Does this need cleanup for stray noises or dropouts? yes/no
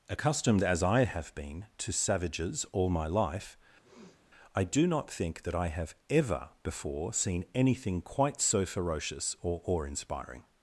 yes